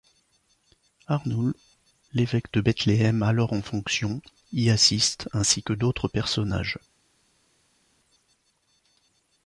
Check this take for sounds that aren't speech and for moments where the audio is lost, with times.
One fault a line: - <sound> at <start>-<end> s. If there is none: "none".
none